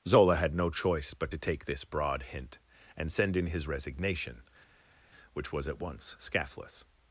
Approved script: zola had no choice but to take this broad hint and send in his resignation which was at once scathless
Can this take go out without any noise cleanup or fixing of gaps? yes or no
yes